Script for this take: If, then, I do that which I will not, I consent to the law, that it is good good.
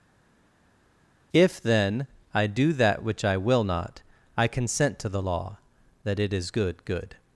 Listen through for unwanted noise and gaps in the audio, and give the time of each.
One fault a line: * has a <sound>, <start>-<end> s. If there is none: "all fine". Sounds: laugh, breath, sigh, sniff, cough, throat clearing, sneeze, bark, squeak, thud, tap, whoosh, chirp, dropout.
all fine